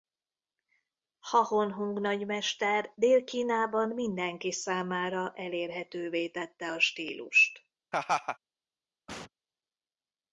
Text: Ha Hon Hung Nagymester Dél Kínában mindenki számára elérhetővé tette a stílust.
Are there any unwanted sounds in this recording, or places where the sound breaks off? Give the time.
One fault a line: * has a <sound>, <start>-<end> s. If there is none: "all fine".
* has a laugh, 7.9-8.4 s
* has a sneeze, 9.1-9.3 s